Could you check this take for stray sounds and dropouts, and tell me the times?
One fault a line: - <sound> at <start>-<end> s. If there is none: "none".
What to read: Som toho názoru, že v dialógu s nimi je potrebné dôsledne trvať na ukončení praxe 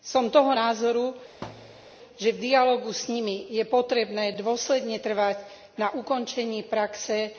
- thud at 1.4-2.0 s